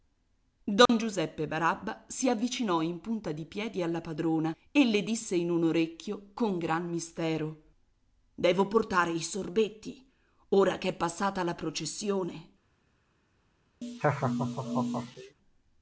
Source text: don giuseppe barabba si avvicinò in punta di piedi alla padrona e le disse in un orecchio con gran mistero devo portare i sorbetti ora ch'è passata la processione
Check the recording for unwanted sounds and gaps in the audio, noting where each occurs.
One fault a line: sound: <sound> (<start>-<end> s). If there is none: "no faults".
sound: dropout (0.9-0.9 s)
sound: laugh (13.8-15.4 s)